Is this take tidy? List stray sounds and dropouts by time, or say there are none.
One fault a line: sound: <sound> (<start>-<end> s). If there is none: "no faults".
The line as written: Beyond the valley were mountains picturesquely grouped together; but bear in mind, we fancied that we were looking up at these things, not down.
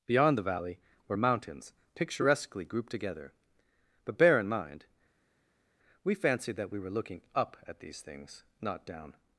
no faults